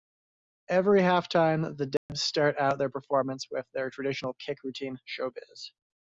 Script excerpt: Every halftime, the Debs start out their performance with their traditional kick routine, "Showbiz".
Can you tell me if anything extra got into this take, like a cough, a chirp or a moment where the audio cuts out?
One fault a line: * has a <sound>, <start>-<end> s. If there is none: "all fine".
* has a dropout, 2.0-2.1 s